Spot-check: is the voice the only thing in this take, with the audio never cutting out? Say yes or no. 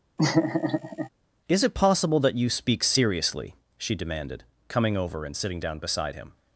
no